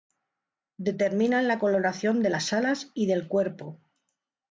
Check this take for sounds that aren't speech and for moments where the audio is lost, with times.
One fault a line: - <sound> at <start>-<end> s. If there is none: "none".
none